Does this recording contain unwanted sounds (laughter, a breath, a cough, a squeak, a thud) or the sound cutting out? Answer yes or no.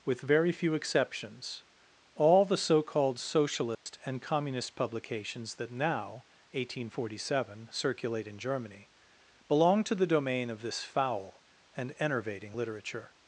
yes